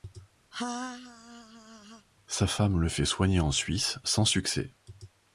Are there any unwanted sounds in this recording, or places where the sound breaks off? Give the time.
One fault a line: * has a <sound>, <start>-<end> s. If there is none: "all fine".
* has a laugh, 0.5-2.1 s